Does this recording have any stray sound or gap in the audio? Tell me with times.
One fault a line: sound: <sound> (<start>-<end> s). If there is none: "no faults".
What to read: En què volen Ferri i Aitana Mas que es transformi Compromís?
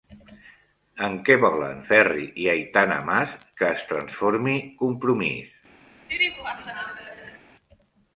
sound: laugh (6.1-7.4 s)